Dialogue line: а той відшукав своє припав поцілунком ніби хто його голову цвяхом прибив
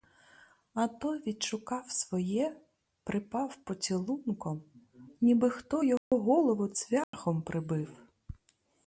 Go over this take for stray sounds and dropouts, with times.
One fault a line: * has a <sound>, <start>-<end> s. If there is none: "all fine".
* has a dropout, 6.0-6.1 s
* has a dropout, 7.0-7.1 s